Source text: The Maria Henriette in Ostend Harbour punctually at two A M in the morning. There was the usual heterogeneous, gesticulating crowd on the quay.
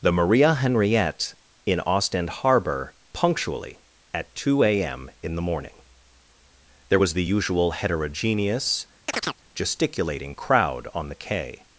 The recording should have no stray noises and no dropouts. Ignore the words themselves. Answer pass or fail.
fail